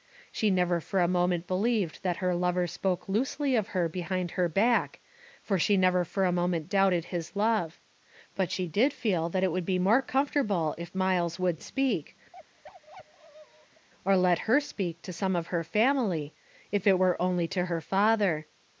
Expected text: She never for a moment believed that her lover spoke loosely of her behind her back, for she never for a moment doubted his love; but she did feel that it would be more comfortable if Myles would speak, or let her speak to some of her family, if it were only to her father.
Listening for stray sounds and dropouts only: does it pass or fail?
fail